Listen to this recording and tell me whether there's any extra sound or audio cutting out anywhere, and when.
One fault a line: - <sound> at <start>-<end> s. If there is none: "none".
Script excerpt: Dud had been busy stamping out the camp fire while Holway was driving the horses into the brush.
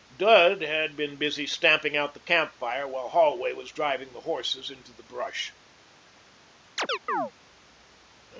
- chirp at 6.8-7.3 s